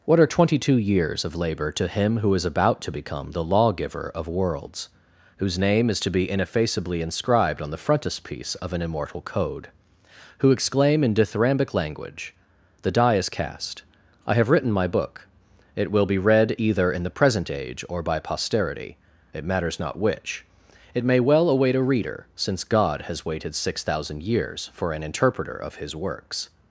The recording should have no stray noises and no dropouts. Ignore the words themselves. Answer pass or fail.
pass